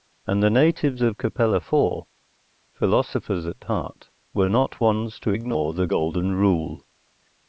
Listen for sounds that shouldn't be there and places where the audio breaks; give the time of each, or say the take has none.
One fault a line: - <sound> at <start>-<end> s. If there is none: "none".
none